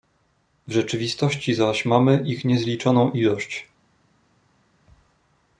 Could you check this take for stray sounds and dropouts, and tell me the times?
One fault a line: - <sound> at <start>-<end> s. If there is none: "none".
none